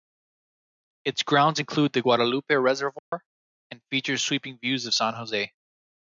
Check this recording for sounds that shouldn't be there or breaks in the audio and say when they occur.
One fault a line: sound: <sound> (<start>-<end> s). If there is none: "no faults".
sound: dropout (3.0-3.1 s)